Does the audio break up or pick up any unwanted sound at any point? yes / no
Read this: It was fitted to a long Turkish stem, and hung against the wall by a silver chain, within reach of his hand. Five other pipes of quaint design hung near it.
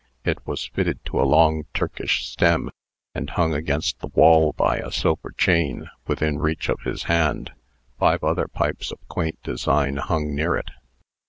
no